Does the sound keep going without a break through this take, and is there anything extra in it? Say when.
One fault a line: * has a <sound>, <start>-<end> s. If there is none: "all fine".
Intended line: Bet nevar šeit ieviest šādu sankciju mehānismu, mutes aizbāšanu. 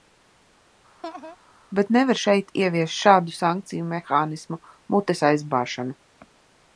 * has a laugh, 1.0-1.4 s